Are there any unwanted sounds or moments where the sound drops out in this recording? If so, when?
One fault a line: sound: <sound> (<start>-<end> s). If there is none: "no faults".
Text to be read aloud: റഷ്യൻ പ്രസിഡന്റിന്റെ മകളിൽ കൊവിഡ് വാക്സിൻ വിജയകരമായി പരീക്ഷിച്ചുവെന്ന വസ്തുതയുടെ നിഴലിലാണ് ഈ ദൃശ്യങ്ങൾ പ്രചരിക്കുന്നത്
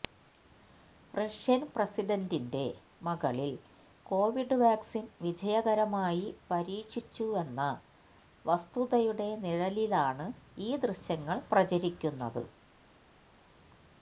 no faults